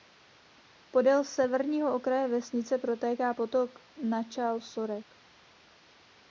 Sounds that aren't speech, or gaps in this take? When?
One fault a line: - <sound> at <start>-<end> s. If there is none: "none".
none